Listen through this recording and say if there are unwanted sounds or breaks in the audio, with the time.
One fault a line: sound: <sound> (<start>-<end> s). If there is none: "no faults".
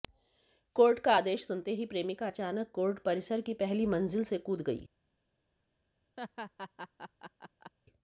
sound: laugh (6.2-7.7 s)